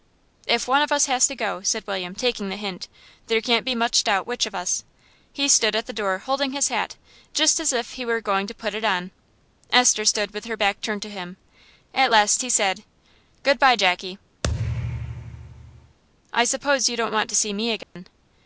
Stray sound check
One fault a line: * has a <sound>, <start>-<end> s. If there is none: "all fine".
* has a thud, 14.4-16.0 s
* has a dropout, 17.8-18.0 s